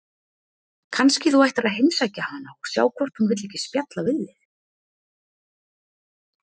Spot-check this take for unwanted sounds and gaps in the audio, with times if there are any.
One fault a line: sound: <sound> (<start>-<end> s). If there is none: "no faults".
no faults